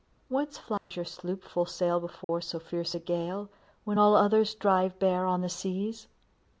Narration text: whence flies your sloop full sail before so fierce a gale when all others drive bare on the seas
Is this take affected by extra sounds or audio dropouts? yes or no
yes